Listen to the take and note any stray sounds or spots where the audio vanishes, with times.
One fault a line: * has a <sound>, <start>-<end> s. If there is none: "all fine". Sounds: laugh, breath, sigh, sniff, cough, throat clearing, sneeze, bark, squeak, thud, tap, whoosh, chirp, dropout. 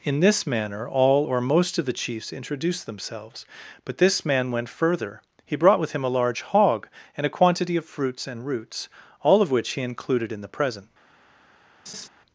* has a laugh, 11.9-12.1 s